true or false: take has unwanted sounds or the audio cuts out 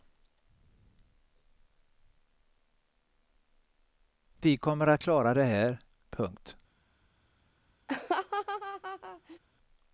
true